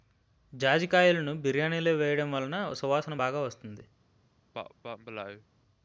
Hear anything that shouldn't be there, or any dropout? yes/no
yes